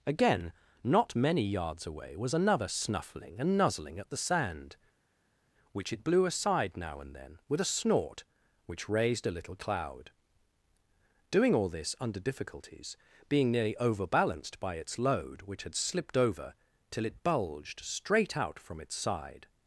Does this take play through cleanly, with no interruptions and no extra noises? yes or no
yes